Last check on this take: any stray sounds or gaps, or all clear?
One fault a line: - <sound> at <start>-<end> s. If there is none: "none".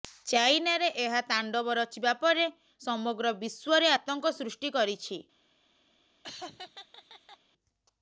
- laugh at 6.2-7.4 s